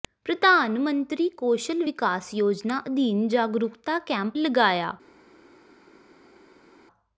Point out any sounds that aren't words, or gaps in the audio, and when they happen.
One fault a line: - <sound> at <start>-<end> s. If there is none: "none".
none